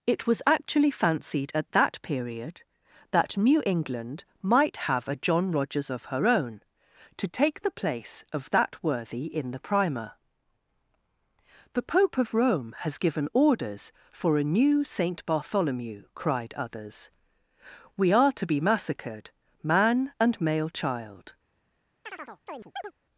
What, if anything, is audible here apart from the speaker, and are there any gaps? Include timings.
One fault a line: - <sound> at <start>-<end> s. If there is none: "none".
- chirp at 22.0-22.9 s